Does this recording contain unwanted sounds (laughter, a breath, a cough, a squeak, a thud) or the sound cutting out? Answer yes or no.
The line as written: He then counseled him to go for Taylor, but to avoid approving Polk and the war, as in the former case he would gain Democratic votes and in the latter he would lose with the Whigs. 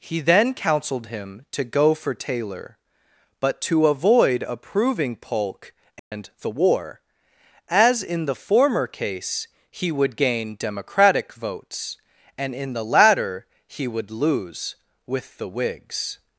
yes